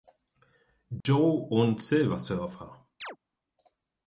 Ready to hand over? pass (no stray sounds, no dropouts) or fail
fail